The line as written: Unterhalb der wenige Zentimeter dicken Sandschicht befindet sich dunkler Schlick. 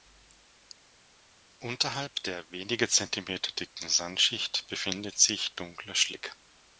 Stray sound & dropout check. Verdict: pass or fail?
pass